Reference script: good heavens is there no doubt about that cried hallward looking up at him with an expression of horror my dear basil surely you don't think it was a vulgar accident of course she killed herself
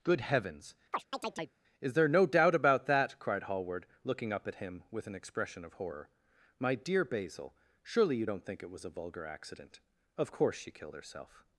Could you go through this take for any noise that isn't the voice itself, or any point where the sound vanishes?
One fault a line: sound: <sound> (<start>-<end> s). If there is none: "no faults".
sound: chirp (0.9-1.6 s)